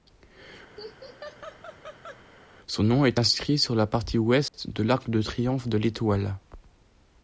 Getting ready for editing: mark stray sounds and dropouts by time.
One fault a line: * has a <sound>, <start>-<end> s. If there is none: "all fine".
* has a laugh, 0.8-2.2 s
* has a dropout, 4.5-4.5 s